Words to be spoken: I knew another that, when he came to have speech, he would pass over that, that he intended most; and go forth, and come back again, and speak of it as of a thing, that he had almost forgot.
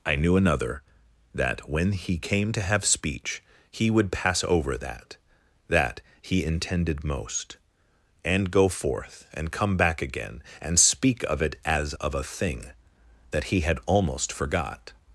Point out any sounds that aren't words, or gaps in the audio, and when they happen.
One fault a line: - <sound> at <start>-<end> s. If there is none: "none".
none